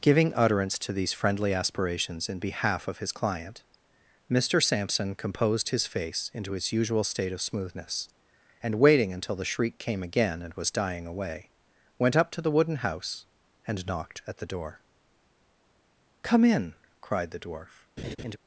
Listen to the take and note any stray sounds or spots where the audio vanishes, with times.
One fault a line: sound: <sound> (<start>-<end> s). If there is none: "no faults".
sound: laugh (18.0-18.4 s)